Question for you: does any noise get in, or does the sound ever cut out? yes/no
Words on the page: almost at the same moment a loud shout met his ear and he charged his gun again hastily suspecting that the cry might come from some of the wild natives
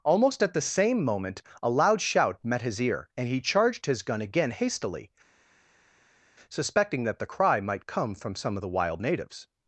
no